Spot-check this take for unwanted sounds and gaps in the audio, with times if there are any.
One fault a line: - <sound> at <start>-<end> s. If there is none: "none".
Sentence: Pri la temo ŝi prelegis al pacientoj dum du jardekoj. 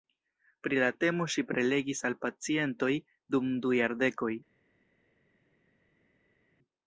none